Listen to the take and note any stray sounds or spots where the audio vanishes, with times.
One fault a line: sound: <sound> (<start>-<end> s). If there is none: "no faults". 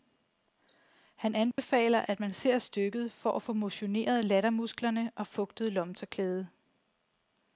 sound: dropout (1.5-1.6 s)